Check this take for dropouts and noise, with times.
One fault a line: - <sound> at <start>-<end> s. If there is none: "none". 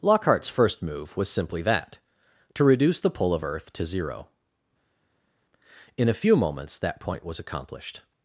none